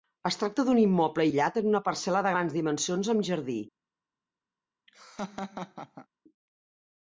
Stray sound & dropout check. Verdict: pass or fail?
fail